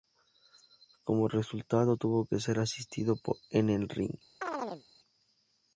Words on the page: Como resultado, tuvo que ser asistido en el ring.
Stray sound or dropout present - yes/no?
yes